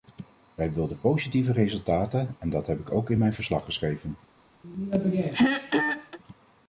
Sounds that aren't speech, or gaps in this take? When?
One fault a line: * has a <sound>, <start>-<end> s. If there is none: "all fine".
* has a throat clearing, 4.6-6.2 s